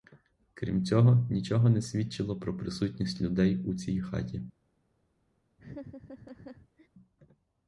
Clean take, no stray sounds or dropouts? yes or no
no